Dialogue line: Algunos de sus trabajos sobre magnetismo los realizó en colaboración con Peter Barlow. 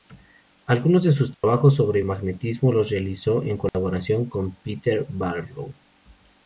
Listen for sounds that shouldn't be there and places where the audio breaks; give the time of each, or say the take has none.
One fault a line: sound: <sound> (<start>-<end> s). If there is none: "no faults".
sound: dropout (1.3-1.4 s)
sound: dropout (3.7-3.7 s)